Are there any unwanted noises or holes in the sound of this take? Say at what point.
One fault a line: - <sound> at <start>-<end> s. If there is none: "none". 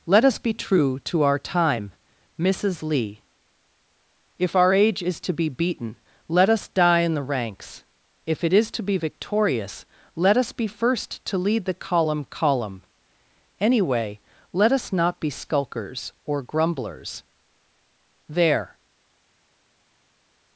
none